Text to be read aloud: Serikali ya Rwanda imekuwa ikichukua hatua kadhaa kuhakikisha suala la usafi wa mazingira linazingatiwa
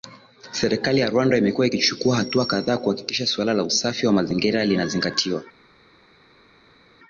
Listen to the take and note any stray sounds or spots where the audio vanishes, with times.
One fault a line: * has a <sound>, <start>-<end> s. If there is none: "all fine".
all fine